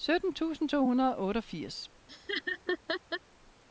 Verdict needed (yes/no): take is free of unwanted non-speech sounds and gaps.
no